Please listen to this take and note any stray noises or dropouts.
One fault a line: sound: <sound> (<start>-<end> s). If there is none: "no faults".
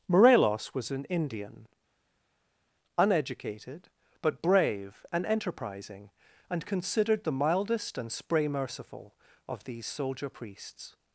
no faults